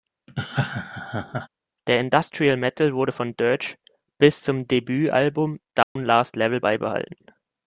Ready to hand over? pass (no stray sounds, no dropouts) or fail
fail